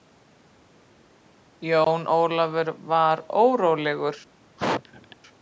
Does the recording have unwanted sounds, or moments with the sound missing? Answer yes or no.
yes